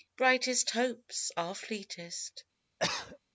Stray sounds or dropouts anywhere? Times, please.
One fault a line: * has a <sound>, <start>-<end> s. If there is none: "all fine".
* has a cough, 2.8-3.2 s